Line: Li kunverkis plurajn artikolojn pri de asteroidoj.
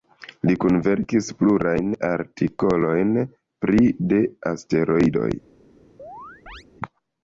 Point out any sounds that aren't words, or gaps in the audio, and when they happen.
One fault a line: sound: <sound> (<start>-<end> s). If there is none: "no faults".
sound: chirp (6.0-6.6 s)